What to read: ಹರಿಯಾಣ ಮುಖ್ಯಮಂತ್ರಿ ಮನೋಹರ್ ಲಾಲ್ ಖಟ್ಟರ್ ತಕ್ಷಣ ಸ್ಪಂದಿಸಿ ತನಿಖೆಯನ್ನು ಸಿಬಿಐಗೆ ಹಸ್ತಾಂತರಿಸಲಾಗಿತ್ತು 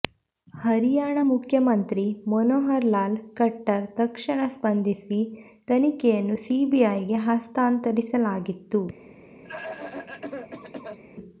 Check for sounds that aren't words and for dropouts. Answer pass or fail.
fail